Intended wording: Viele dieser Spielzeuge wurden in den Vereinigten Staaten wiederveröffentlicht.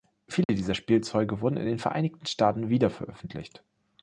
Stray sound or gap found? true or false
true